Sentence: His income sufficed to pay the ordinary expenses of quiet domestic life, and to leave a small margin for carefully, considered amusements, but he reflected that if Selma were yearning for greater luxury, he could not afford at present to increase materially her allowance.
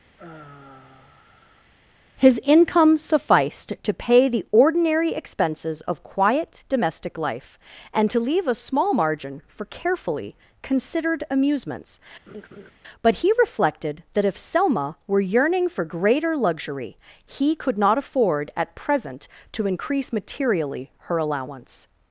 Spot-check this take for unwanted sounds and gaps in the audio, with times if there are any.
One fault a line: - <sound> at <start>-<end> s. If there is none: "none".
- sigh at 0.2-1.7 s
- laugh at 12.3-12.7 s